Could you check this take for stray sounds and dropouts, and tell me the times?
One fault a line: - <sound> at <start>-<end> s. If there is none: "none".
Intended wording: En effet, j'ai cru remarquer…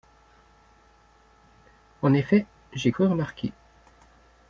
none